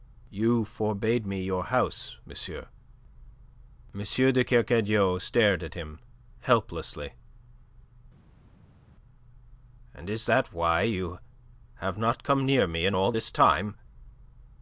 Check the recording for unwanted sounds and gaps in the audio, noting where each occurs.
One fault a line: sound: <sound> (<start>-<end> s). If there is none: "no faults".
no faults